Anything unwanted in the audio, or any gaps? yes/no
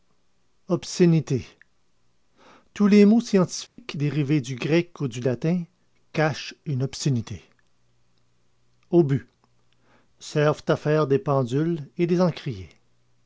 yes